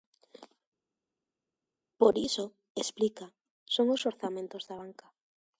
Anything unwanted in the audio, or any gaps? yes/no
no